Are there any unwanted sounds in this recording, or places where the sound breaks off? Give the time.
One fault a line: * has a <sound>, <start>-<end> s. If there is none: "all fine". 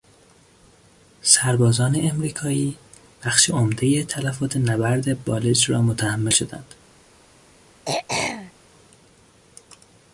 * has a throat clearing, 7.9-8.5 s